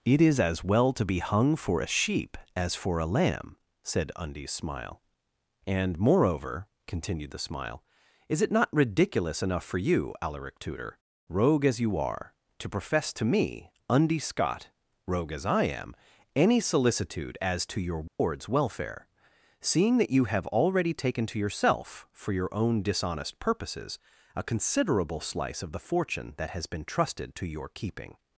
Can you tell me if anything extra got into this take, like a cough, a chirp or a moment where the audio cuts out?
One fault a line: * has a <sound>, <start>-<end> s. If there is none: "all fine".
* has a dropout, 18.1-18.2 s